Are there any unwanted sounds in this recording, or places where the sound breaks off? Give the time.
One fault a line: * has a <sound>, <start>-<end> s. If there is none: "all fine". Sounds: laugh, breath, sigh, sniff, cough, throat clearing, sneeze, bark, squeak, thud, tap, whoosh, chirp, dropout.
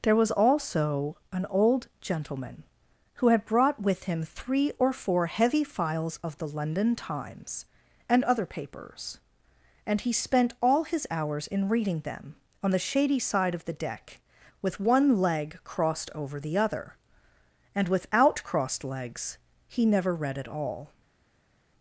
all fine